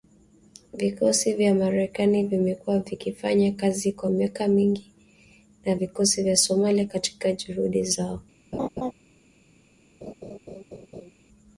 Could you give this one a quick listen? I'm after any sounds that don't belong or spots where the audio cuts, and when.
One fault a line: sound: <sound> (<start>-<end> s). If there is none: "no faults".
sound: laugh (8.5-8.9 s)
sound: laugh (10.0-11.1 s)